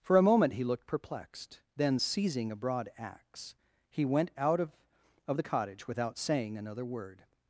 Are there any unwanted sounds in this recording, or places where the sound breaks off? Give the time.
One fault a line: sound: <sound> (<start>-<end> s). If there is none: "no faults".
no faults